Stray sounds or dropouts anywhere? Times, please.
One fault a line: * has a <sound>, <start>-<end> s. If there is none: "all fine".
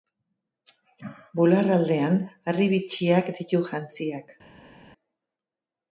all fine